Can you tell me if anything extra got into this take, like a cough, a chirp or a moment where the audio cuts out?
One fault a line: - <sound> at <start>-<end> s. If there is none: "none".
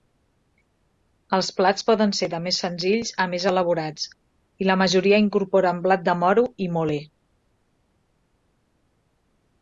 none